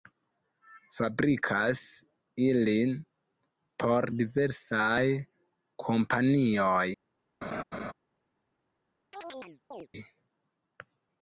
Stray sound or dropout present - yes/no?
yes